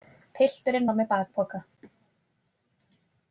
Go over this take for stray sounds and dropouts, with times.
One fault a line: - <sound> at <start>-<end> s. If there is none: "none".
none